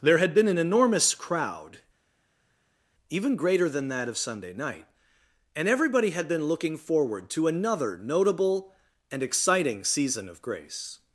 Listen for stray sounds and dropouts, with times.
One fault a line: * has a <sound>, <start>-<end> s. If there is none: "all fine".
all fine